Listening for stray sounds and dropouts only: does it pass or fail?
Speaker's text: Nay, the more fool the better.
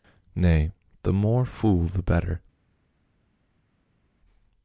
pass